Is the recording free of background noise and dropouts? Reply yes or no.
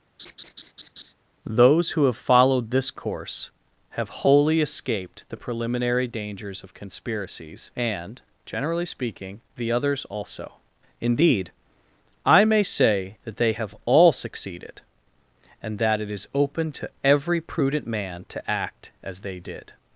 no